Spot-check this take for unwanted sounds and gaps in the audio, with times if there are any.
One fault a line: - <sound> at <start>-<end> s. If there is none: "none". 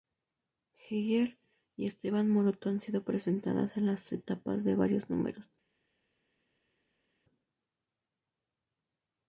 none